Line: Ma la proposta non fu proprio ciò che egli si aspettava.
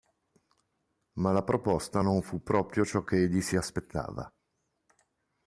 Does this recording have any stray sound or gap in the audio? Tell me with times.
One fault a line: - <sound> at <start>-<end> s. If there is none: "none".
none